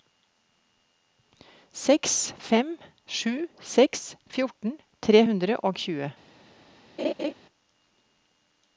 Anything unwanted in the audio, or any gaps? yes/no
yes